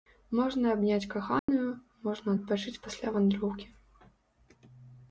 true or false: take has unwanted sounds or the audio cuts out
true